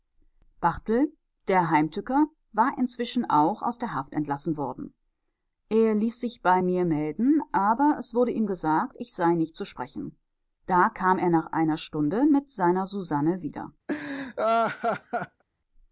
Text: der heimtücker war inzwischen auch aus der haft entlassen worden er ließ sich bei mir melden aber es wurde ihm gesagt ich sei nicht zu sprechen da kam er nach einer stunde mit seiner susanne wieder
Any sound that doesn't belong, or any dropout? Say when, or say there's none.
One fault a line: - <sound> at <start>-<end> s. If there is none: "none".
- laugh at 13.9-15.4 s